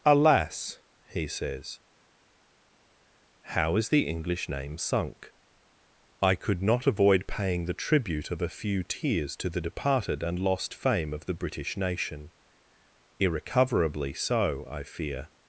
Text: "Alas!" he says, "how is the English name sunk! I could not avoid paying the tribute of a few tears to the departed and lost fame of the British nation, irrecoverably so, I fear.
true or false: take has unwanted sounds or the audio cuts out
false